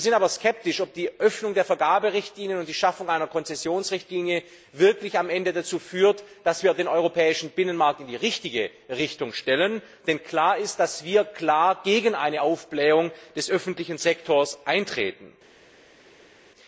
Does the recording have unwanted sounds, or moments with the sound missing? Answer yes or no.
no